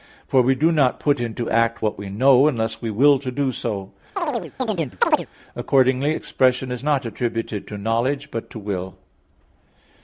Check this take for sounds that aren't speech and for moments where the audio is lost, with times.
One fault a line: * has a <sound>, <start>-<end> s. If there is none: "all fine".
* has a chirp, 4.2-5.3 s